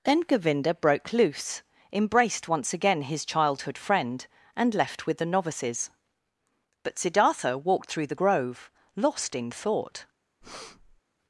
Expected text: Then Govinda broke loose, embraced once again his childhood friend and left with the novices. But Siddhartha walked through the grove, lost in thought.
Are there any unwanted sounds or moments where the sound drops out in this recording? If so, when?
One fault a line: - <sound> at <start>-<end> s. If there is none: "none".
- breath at 10.4-11.0 s